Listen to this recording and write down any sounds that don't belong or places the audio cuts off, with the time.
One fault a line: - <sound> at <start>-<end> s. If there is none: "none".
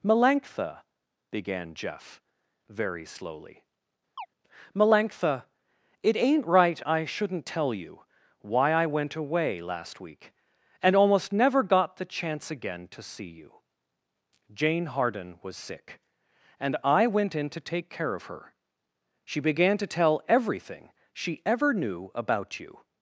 - chirp at 4.2-4.3 s